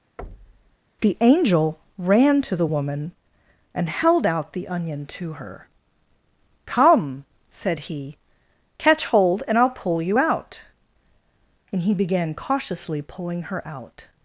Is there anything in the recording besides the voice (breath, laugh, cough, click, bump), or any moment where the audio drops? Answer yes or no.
yes